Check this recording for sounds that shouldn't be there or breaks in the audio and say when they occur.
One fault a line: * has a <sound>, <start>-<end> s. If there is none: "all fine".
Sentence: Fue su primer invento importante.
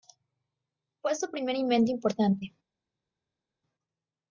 all fine